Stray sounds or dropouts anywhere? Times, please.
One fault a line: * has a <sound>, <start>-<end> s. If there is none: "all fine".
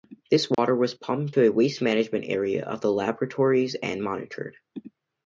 * has a dropout, 0.5-0.6 s